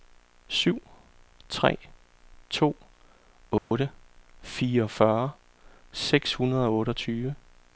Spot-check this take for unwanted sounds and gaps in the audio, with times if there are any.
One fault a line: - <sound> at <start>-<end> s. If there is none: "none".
- dropout at 3.6-3.7 s